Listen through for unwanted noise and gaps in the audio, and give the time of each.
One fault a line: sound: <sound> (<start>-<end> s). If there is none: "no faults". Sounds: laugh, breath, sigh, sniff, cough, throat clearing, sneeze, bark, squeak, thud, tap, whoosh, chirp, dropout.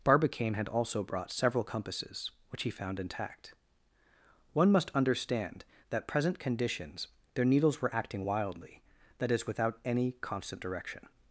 no faults